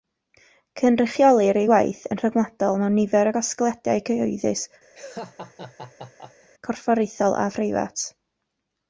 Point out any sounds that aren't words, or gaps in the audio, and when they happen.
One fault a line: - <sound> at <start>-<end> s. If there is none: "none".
- laugh at 4.9-6.5 s